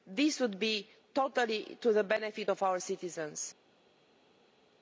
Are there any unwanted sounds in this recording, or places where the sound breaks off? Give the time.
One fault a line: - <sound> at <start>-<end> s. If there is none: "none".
none